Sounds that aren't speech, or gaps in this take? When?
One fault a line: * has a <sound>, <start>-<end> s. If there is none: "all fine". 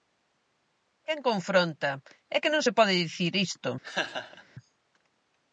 * has a laugh, 3.8-4.4 s